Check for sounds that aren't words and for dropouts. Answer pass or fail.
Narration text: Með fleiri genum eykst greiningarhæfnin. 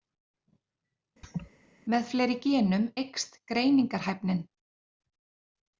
fail